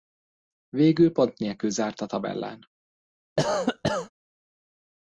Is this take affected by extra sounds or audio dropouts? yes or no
yes